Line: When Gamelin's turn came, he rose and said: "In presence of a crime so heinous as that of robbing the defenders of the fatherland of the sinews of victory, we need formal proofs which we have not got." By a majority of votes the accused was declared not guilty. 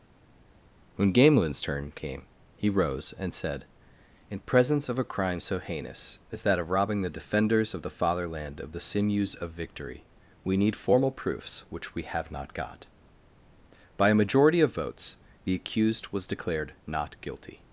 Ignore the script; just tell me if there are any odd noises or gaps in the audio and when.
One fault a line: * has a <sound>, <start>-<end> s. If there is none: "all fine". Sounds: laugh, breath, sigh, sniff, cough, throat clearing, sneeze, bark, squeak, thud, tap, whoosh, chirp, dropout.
all fine